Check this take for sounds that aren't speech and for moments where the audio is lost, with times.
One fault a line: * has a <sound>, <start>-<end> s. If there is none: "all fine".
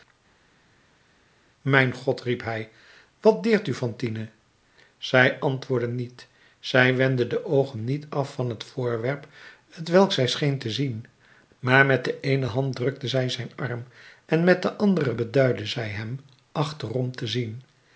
all fine